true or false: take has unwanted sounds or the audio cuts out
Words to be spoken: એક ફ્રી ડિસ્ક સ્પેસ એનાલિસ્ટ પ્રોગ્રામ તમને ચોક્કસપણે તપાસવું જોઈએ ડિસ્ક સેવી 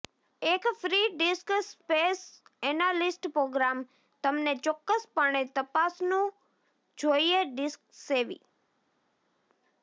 false